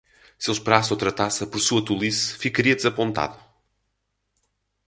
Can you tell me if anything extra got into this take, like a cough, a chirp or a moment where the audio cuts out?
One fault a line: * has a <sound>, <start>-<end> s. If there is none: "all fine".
all fine